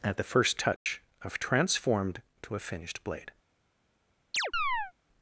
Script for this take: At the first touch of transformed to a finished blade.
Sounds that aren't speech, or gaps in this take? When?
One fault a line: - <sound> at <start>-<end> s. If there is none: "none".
- dropout at 0.8-0.9 s
- chirp at 4.3-4.9 s